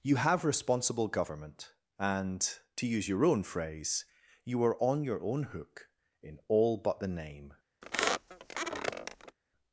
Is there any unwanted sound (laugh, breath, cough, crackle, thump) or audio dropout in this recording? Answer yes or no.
yes